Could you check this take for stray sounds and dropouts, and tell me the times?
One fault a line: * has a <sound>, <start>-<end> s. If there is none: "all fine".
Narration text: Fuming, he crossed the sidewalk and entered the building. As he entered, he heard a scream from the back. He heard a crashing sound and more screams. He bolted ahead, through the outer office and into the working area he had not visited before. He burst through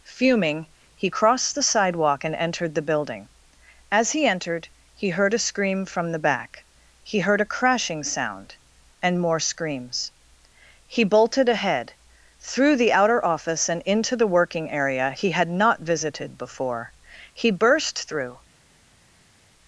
all fine